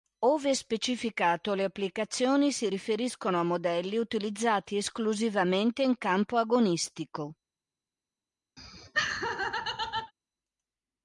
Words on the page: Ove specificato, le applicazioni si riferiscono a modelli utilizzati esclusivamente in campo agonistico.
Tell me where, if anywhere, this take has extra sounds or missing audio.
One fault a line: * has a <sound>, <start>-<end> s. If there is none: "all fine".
* has a laugh, 8.6-10.1 s